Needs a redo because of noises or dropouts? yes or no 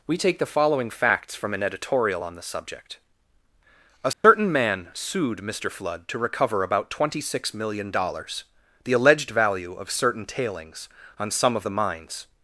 yes